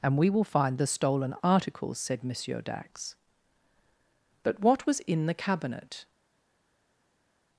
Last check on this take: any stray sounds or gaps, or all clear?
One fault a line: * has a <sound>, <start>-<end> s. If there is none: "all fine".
all fine